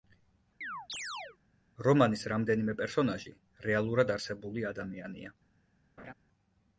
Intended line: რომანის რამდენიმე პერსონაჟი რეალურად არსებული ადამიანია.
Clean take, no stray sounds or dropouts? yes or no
no